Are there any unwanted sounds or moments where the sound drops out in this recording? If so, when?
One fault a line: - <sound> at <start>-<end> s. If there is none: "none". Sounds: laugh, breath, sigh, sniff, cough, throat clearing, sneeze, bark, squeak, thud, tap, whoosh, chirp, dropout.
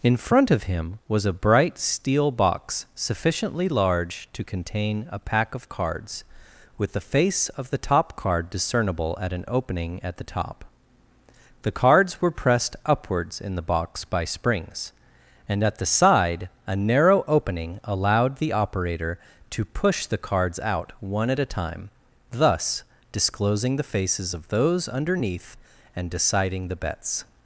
none